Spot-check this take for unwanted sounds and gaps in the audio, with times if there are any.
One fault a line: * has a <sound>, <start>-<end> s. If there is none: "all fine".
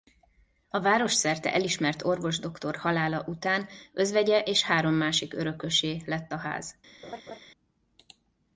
* has a laugh, 7.0-7.4 s